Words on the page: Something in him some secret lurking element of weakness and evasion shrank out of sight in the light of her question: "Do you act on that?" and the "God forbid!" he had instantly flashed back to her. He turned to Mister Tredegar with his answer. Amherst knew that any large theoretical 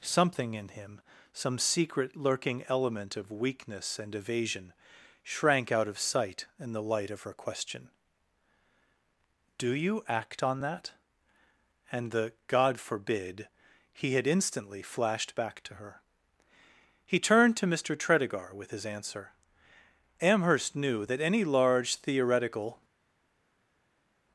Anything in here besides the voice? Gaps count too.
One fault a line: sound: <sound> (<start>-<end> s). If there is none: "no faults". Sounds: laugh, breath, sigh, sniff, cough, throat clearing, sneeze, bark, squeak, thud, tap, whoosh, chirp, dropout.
no faults